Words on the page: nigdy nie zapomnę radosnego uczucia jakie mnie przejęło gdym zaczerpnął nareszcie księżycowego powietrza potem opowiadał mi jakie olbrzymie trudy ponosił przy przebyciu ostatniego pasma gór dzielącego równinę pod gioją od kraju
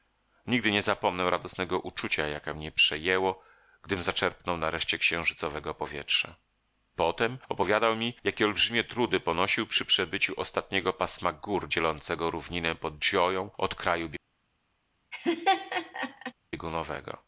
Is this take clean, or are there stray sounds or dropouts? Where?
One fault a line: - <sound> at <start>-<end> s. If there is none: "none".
- laugh at 15.1-16.3 s